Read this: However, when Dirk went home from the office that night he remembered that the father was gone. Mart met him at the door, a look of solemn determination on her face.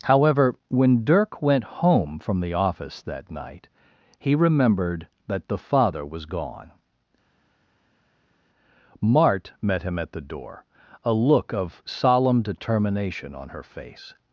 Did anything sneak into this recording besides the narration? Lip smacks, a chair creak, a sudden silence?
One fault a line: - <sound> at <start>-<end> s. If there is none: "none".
none